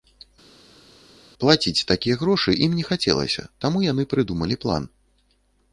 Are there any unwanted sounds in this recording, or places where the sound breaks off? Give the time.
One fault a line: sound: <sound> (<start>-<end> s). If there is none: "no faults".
no faults